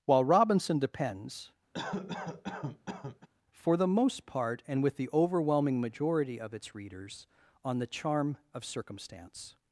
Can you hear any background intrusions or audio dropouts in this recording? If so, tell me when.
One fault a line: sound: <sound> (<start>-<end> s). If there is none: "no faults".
sound: cough (1.7-3.3 s)